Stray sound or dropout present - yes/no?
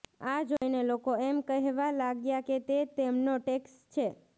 yes